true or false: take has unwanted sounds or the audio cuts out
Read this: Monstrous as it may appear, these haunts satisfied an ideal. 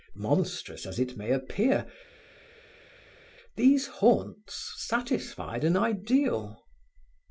false